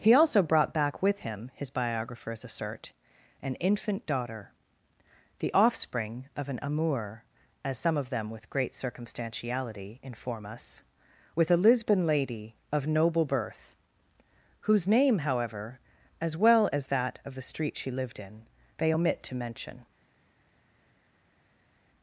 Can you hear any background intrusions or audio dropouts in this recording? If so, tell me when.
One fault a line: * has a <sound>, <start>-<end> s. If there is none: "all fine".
all fine